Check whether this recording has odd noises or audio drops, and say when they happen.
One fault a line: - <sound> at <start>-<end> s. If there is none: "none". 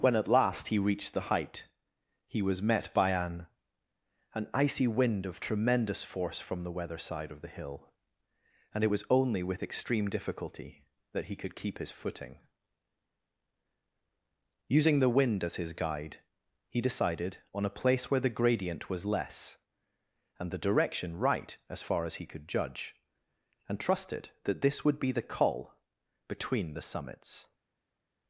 none